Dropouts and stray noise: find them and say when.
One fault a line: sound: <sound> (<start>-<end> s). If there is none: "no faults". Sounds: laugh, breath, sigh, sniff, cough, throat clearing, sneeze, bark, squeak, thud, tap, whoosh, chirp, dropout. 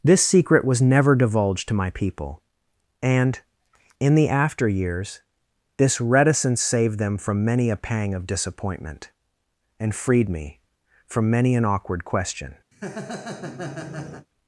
sound: laugh (12.7-14.3 s)